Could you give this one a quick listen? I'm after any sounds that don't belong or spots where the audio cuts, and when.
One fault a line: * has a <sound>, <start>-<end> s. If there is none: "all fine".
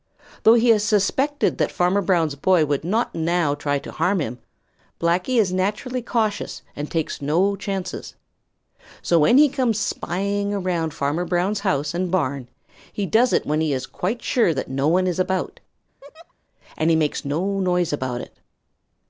* has a laugh, 16.0-16.3 s